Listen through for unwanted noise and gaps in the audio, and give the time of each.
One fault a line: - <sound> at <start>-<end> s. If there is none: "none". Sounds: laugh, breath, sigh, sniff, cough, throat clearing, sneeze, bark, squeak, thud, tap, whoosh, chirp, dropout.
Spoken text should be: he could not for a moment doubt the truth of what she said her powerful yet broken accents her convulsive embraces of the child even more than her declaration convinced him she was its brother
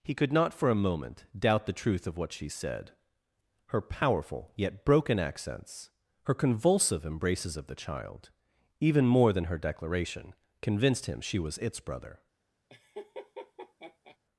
- laugh at 12.7-14.2 s